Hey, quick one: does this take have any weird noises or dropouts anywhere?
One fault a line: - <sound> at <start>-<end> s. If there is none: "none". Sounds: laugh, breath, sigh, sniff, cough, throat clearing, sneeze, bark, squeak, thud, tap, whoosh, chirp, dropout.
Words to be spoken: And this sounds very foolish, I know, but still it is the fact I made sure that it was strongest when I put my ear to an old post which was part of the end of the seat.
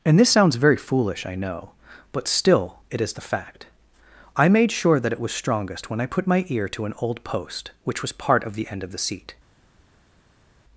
none